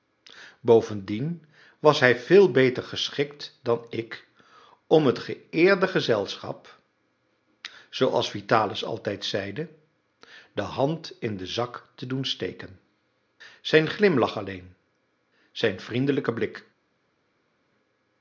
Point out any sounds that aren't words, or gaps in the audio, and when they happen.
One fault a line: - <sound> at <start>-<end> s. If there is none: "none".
none